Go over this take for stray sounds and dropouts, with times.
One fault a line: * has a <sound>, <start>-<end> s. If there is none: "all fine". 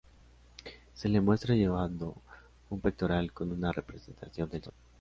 all fine